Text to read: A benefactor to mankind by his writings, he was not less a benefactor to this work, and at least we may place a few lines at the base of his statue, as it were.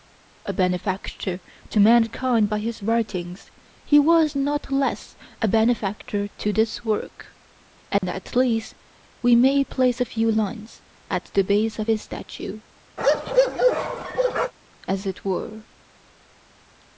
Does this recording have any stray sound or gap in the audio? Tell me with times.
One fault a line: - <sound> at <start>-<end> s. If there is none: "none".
- dropout at 8.0-8.0 s
- bark at 13.0-14.5 s